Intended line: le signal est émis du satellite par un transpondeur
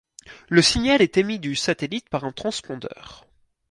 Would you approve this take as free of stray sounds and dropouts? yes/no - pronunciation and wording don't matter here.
yes